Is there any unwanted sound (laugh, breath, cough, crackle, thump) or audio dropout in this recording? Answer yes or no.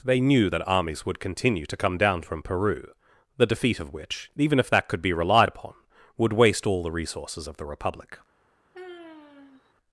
yes